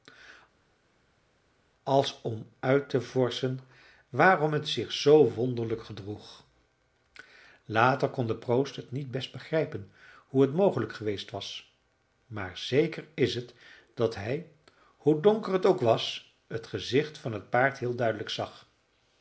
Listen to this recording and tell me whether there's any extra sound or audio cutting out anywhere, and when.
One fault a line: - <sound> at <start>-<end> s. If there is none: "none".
none